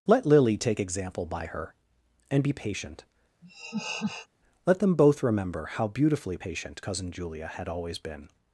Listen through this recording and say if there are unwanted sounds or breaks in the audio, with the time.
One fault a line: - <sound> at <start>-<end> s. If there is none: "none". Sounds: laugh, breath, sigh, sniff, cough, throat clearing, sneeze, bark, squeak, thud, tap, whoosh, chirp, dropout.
- laugh at 3.4-4.3 s